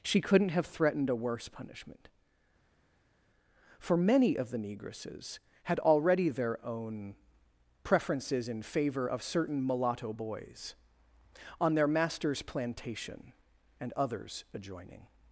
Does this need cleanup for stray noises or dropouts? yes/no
no